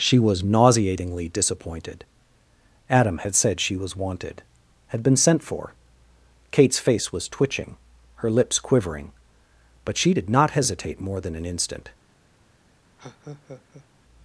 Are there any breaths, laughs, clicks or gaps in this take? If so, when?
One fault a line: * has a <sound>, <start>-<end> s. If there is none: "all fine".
* has a laugh, 13.0-13.9 s